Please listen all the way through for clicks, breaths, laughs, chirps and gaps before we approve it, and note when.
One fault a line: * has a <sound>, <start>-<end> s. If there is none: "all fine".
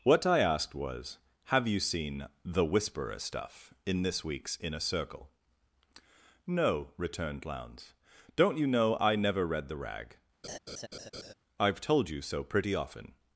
* has a laugh, 10.4-11.3 s